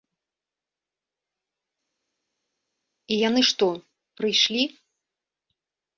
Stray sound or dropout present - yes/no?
no